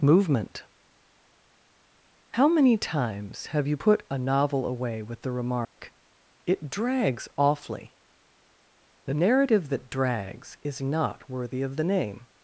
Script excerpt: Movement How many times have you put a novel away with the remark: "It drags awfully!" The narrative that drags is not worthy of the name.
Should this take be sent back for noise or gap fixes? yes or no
yes